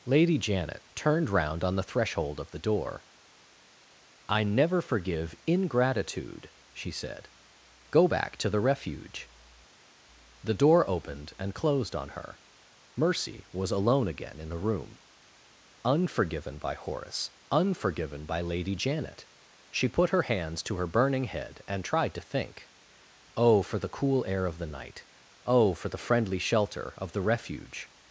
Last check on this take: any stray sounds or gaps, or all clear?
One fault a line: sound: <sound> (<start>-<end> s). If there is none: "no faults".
no faults